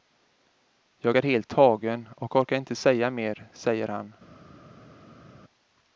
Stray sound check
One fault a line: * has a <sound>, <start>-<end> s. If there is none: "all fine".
all fine